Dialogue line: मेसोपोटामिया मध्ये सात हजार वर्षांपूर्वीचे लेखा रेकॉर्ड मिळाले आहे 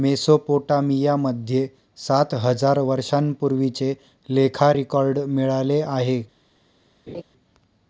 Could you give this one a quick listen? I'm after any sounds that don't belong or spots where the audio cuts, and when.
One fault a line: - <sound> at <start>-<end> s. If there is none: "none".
- laugh at 7.1-7.2 s